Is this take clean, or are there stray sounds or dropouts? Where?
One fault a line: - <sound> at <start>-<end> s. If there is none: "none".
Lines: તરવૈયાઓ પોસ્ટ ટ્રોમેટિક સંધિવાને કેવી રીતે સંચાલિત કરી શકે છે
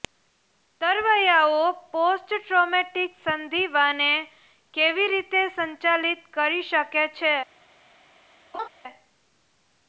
- laugh at 8.5-8.7 s